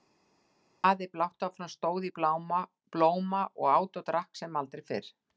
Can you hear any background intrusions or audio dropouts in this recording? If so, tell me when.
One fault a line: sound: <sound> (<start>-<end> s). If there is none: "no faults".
no faults